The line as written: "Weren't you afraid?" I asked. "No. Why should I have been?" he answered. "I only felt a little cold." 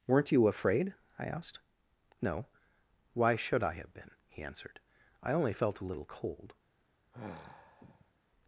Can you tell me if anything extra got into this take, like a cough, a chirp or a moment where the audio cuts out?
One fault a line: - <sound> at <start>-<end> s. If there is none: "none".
- sigh at 7.1-8.1 s